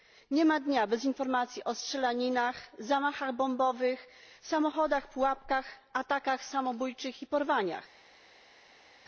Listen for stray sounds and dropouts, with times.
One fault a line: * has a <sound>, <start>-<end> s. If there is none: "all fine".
all fine